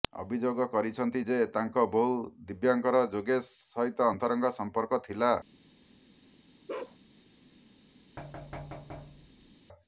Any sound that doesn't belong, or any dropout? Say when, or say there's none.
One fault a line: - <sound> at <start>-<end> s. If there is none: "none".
- bark at 6.7-7.0 s
- thud at 8.2-9.6 s